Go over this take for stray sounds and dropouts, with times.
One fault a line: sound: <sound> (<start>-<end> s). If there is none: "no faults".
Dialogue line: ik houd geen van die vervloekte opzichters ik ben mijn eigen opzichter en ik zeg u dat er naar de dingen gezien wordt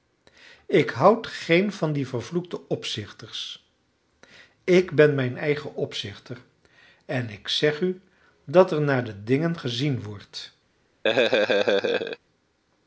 sound: laugh (11.0-12.2 s)